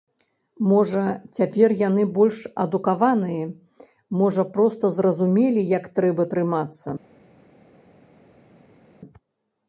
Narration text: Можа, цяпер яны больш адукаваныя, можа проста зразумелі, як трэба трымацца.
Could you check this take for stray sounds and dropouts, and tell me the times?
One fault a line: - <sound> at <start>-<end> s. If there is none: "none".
none